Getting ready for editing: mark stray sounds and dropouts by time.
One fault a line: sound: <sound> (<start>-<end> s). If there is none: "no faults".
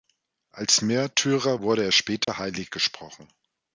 sound: dropout (2.2-2.3 s)